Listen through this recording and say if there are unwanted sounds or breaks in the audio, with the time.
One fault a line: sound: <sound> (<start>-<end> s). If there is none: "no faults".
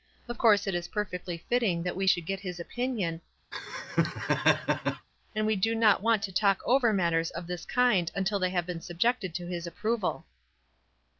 sound: laugh (3.5-5.1 s)